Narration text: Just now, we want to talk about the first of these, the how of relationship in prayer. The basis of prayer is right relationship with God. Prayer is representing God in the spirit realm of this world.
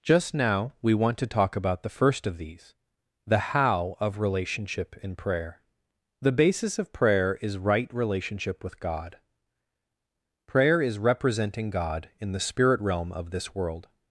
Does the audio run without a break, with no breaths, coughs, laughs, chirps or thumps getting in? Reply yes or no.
yes